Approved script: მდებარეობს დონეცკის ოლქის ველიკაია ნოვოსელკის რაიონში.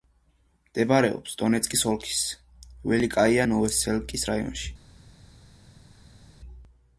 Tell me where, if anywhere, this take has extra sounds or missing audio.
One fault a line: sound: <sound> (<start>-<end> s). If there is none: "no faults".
no faults